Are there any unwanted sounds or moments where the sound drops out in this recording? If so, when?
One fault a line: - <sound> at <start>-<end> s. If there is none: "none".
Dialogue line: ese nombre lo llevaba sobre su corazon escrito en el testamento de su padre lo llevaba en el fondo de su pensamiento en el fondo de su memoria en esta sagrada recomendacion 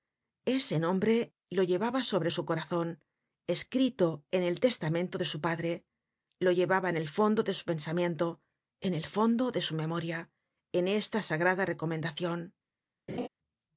- laugh at 13.1-13.3 s